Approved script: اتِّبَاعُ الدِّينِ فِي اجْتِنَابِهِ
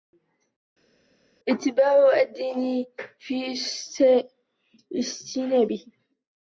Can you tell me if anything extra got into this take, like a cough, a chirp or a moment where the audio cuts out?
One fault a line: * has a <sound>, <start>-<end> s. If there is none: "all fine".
all fine